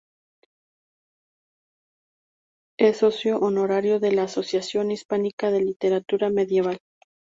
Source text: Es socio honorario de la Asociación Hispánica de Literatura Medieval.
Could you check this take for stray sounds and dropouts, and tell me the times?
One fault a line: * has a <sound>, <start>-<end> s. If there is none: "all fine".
all fine